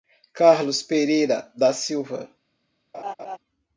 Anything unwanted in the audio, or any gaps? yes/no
yes